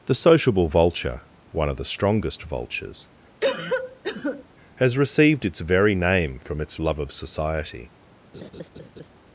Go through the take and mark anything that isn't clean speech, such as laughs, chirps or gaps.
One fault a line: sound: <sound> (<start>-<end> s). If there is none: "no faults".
sound: cough (3.4-4.4 s)
sound: laugh (8.3-9.1 s)